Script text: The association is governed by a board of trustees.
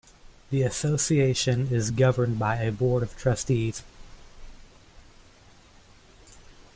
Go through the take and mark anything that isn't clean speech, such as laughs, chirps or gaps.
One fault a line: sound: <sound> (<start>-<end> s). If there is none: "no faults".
no faults